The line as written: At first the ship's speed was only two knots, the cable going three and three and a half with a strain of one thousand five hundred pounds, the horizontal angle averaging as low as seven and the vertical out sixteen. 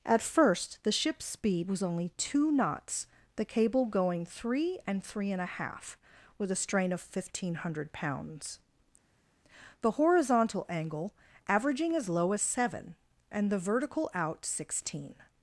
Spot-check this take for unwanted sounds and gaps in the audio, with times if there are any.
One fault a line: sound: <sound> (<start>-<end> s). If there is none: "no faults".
no faults